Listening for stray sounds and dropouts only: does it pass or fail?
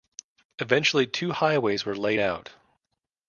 pass